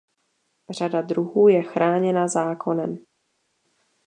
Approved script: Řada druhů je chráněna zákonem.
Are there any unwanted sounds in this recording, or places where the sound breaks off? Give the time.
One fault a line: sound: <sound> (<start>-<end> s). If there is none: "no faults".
no faults